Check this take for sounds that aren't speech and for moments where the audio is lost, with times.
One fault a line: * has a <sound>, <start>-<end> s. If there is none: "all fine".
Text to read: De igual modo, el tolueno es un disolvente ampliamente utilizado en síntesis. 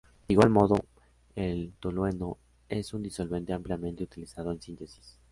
all fine